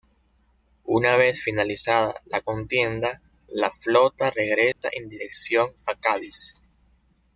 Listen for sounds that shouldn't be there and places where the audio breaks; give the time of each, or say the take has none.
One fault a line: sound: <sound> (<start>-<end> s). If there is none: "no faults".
sound: dropout (4.7-4.8 s)